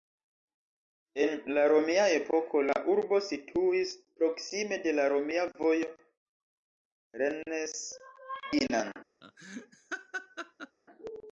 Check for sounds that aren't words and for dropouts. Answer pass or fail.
fail